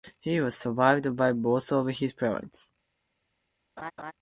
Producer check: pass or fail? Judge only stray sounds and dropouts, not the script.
fail